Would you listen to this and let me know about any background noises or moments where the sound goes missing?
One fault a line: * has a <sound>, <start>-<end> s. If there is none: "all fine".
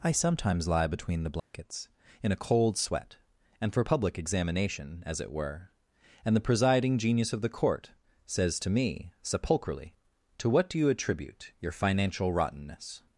* has a dropout, 1.4-1.5 s